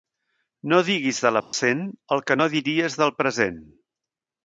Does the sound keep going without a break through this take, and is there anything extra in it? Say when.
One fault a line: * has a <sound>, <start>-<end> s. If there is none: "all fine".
* has a dropout, 1.4-1.5 s